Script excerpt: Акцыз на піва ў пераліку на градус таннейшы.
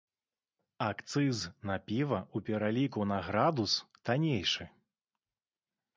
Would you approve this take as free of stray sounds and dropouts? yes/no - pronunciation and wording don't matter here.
yes